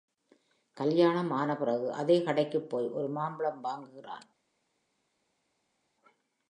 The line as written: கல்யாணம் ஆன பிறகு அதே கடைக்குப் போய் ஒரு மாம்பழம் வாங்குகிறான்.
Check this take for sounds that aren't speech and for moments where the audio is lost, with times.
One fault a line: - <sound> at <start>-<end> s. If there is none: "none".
none